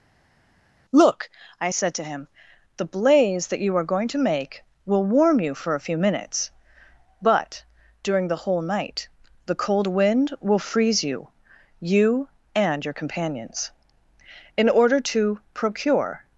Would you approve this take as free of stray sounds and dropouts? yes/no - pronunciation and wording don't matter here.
yes